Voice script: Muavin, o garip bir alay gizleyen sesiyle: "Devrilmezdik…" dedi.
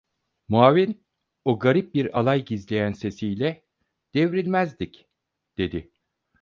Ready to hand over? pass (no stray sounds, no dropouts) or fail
pass